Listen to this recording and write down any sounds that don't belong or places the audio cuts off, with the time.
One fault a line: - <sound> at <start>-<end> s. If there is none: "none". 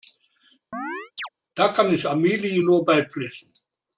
- chirp at 0.7-1.3 s